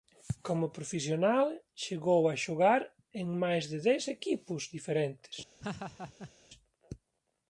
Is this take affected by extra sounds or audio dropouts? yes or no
yes